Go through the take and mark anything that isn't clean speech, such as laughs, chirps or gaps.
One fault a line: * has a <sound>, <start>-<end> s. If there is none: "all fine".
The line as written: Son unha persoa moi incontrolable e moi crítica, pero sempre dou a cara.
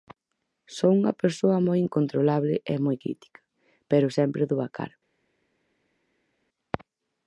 all fine